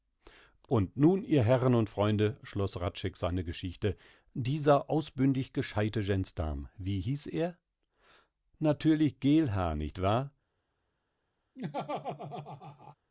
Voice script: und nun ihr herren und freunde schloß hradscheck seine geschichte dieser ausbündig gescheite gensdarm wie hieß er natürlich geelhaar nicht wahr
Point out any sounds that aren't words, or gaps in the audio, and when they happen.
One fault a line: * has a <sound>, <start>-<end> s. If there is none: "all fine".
* has a laugh, 11.6-13.0 s